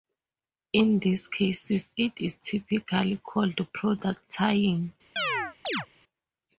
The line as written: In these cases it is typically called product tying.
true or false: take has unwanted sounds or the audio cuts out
true